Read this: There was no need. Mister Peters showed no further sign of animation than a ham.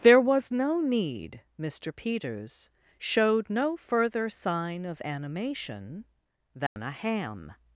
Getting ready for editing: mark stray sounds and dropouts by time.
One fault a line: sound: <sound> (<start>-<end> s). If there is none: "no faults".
sound: dropout (6.7-6.8 s)